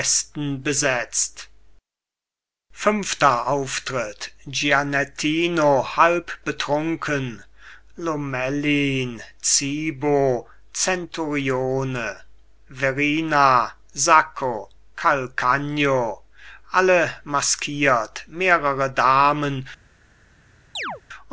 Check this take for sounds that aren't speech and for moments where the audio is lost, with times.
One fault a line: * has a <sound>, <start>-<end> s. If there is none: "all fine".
* has a chirp, 20.8-21.0 s